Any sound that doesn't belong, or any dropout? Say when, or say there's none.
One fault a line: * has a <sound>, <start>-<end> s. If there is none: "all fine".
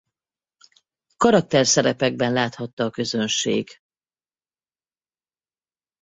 all fine